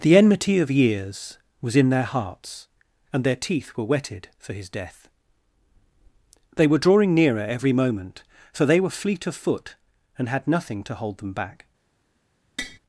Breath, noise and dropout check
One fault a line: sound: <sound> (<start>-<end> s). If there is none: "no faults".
sound: tap (12.6-12.8 s)